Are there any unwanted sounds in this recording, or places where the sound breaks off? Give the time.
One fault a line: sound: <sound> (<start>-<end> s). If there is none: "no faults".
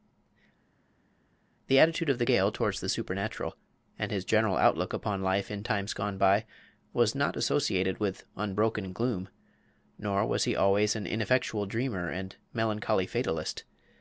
no faults